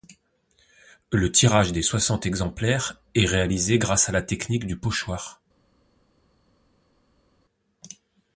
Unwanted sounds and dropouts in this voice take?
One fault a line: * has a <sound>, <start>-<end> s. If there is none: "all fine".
all fine